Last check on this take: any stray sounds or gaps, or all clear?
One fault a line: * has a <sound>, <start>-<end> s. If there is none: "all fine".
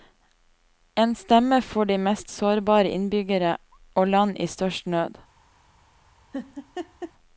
* has a laugh, 6.3-7.1 s